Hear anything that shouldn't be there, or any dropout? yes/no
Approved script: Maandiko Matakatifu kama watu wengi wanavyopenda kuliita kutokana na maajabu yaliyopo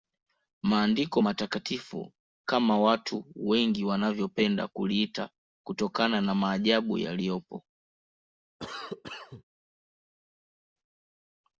yes